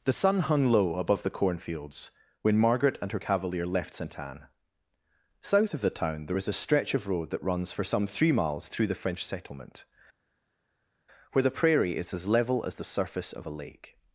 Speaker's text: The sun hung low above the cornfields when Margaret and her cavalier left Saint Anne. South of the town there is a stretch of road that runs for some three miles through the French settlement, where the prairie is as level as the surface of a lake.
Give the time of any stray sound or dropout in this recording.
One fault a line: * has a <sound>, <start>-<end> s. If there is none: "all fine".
all fine